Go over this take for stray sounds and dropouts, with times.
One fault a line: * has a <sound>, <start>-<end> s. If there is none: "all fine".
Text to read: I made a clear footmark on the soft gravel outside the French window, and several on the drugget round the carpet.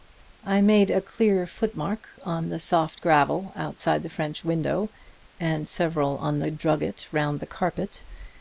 all fine